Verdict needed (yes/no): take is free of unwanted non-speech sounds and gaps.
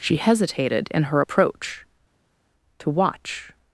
yes